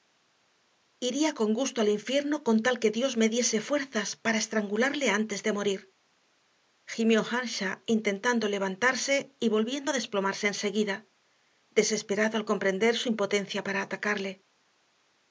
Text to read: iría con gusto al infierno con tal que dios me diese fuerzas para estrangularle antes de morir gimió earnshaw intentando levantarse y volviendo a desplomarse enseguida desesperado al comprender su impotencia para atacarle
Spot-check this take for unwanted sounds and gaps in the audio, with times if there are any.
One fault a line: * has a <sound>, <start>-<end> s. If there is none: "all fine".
all fine